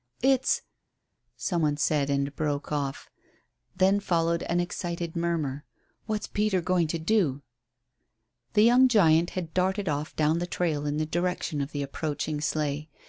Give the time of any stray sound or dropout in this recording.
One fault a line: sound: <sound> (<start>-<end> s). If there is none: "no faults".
no faults